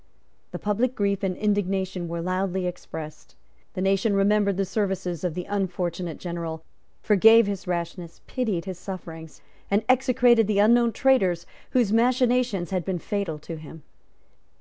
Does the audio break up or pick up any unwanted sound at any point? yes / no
no